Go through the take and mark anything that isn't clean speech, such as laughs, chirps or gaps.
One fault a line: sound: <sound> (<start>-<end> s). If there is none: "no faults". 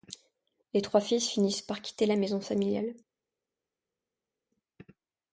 no faults